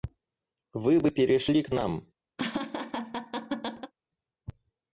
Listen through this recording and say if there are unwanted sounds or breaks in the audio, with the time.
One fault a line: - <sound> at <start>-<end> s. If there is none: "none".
- laugh at 2.4-3.9 s